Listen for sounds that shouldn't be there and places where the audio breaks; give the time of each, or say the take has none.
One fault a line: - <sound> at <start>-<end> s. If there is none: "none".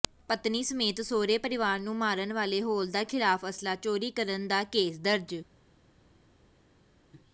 none